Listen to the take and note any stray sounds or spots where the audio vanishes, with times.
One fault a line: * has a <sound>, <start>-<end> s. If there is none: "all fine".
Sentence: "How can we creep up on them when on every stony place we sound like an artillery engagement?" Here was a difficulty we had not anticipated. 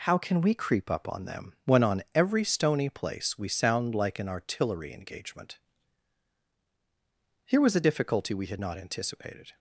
all fine